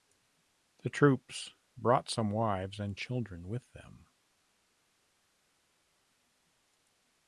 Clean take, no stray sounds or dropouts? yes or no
yes